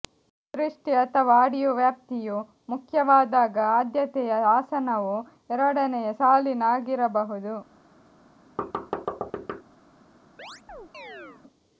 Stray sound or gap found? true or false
true